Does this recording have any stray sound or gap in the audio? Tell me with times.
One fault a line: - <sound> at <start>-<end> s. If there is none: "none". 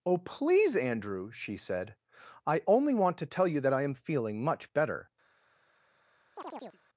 - chirp at 6.4-6.8 s